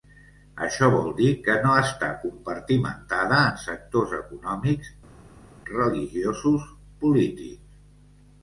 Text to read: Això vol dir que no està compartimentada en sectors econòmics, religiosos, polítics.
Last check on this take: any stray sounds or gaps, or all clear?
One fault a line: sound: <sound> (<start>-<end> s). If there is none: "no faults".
no faults